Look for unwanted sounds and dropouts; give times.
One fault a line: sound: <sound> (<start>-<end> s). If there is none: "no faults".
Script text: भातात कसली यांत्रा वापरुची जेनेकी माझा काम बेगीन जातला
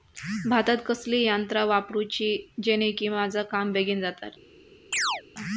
sound: chirp (4.9-5.2 s)